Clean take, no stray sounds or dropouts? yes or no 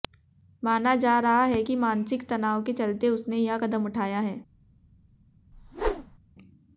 no